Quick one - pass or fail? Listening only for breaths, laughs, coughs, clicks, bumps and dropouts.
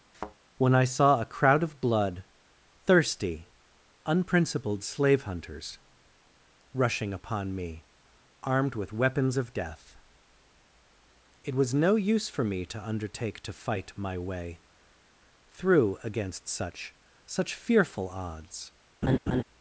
fail